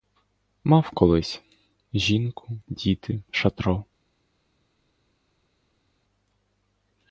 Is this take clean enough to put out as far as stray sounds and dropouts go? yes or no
yes